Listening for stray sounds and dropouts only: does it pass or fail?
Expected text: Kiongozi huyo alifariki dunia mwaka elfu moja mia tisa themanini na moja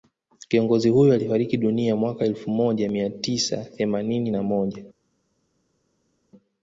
pass